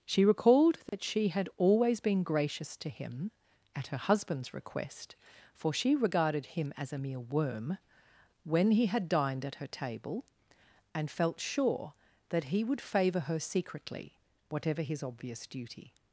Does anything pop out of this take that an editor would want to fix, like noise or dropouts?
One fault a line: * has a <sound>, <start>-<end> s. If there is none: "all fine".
* has a dropout, 0.9-0.9 s